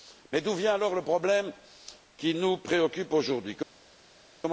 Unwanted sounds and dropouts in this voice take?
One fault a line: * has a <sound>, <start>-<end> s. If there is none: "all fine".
all fine